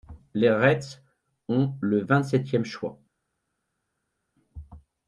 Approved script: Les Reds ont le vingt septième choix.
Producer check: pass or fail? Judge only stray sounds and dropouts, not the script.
pass